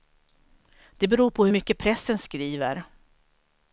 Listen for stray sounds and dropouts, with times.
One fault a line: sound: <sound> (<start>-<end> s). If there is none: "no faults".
no faults